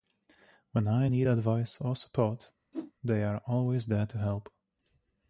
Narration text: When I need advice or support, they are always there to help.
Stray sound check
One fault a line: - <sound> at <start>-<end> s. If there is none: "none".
- whoosh at 2.7-2.9 s